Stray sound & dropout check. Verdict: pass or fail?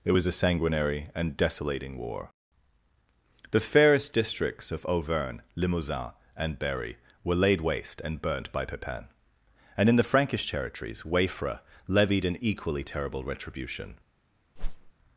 fail